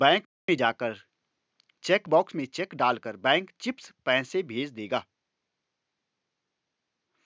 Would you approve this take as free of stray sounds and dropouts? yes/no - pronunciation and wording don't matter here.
yes